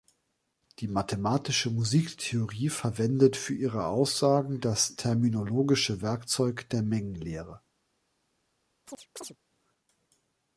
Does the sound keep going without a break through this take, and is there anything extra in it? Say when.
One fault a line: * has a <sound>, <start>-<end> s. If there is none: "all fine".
* has a chirp, 8.9-9.4 s